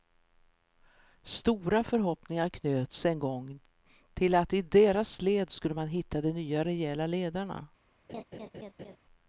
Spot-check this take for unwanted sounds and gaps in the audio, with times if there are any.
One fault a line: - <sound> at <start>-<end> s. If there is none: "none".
- laugh at 8.1-9.0 s